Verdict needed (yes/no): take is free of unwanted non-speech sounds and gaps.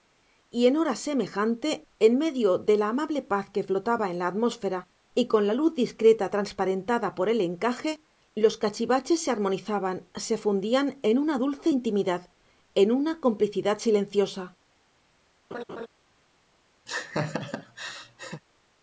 no